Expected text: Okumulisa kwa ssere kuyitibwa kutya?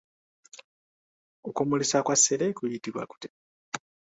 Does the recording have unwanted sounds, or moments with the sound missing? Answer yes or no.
no